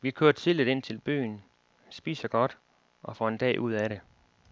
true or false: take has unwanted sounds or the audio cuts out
false